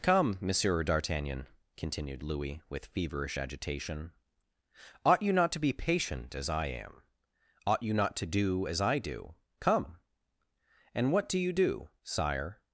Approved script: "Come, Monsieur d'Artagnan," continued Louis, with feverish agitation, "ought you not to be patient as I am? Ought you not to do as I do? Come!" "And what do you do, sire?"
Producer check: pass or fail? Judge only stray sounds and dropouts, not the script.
pass